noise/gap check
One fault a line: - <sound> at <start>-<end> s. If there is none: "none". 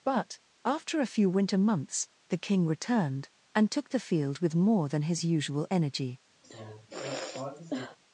- sigh at 6.4-8.0 s